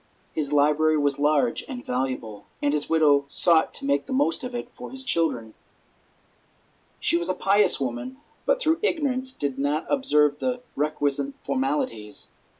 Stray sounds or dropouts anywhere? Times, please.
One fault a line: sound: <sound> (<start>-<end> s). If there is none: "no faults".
no faults